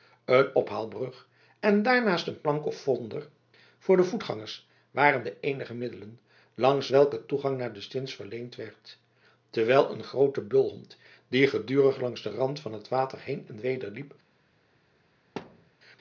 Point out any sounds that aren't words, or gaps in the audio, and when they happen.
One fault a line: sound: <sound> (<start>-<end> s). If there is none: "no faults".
sound: thud (15.4-15.7 s)